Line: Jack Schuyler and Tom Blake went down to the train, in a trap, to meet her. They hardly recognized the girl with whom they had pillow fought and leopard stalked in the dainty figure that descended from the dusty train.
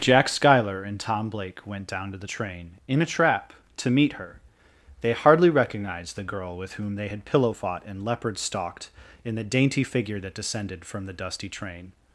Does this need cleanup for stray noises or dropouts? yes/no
no